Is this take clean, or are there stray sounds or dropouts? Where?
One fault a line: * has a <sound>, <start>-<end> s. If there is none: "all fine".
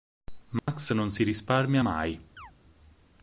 * has a dropout, 0.6-0.7 s
* has a chirp, 2.4-2.5 s